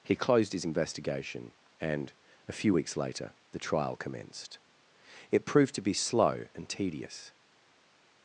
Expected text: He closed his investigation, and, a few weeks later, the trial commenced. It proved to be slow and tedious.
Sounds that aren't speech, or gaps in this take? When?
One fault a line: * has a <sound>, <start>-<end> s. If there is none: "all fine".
all fine